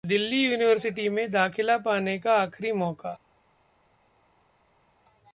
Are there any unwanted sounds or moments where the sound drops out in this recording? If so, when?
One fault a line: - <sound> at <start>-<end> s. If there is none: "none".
none